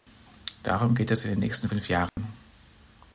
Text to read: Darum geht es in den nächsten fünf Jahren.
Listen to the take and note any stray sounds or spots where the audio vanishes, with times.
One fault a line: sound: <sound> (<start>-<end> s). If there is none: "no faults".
sound: dropout (2.1-2.2 s)